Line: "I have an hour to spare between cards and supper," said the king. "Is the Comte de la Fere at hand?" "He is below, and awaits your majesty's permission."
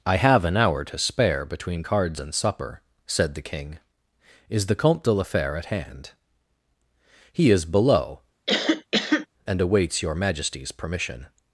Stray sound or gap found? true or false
true